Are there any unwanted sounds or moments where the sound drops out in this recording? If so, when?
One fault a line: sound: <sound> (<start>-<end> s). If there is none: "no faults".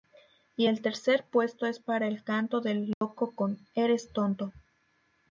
sound: dropout (2.9-3.0 s)